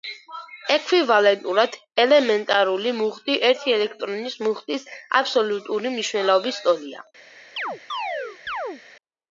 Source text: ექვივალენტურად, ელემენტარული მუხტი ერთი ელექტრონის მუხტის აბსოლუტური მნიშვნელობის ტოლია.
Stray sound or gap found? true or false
true